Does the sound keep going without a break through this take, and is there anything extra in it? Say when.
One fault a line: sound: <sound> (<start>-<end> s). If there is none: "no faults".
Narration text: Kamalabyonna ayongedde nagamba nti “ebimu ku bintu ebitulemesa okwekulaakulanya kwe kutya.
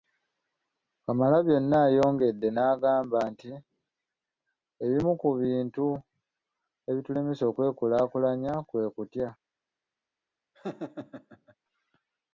sound: laugh (10.5-11.6 s)